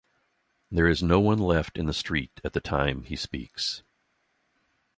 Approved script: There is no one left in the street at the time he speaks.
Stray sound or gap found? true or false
false